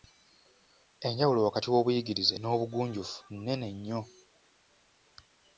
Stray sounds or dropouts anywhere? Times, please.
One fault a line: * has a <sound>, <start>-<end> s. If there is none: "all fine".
all fine